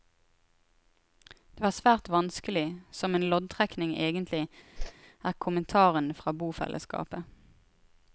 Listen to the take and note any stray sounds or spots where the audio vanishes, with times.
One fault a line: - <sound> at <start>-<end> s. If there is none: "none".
- whoosh at 4.8-4.9 s